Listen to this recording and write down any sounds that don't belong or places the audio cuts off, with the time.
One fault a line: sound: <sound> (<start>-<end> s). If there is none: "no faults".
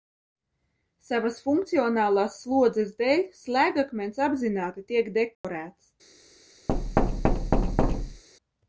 sound: dropout (5.3-5.4 s)
sound: thud (6.7-8.2 s)